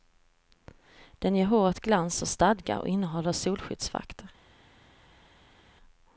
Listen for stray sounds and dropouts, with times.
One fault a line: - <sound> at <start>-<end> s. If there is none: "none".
none